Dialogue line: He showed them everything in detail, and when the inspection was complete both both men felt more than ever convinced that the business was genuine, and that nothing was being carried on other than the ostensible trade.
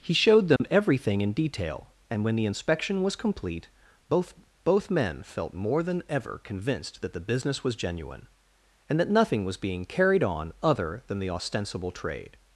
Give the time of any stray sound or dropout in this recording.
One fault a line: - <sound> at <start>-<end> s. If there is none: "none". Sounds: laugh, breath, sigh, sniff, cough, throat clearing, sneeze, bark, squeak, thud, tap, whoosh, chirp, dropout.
- dropout at 0.6-0.6 s